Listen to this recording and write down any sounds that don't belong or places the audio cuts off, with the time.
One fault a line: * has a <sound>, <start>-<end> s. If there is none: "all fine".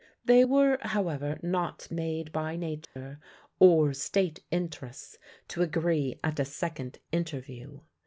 * has a dropout, 2.8-3.0 s